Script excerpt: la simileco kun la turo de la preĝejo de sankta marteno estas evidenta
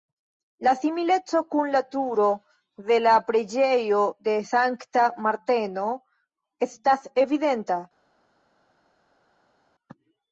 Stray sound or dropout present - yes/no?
no